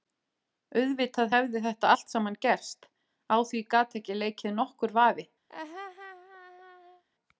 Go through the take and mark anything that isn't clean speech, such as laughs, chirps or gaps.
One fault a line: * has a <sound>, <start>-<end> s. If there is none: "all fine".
* has a laugh, 5.5-7.0 s